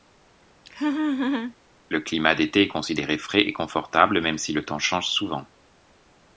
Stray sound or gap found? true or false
true